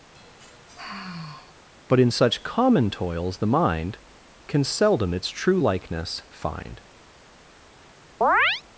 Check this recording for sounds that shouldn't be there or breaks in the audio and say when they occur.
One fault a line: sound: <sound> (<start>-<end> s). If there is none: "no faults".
sound: sigh (0.1-1.6 s)
sound: chirp (8.2-8.6 s)